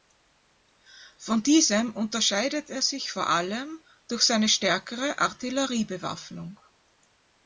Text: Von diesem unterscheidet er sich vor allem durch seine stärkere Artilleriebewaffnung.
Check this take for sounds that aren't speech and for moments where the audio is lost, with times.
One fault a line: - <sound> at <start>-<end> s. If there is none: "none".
none